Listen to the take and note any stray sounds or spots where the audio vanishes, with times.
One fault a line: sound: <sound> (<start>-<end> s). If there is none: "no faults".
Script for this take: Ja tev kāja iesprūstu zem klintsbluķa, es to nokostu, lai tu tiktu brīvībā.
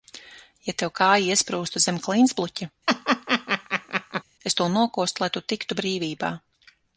sound: laugh (2.9-4.2 s)